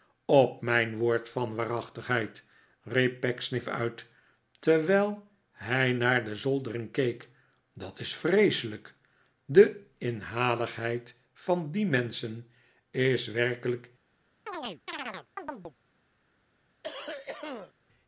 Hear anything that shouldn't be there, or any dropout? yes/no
yes